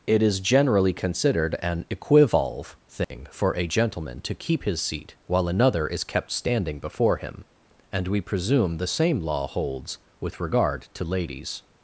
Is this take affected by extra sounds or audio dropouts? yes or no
yes